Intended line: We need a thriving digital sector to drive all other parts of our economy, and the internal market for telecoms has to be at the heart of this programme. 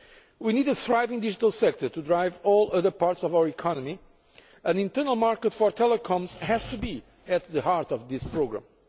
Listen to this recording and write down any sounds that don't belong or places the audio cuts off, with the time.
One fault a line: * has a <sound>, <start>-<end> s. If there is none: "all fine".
all fine